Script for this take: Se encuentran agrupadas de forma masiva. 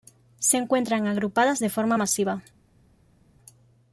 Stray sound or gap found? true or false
false